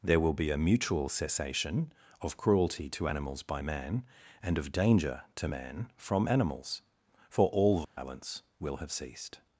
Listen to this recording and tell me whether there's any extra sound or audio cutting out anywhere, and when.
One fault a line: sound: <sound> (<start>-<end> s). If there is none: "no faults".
sound: dropout (7.8-8.0 s)